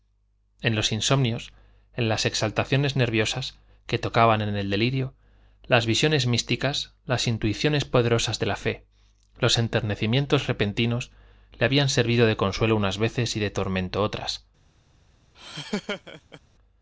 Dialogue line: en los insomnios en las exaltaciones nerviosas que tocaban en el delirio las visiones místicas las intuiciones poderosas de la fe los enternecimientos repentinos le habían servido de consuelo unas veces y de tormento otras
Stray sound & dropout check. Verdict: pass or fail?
fail